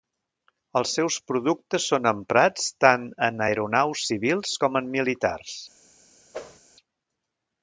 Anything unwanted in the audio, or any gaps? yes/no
yes